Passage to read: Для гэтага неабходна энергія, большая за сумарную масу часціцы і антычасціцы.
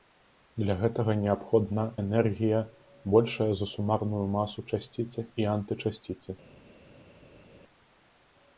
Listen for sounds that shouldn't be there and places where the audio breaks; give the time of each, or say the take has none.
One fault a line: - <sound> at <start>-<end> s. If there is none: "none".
none